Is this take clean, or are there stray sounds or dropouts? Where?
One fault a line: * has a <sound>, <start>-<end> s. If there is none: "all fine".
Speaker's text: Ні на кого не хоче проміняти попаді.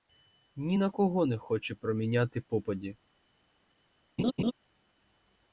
* has a laugh, 4.2-4.5 s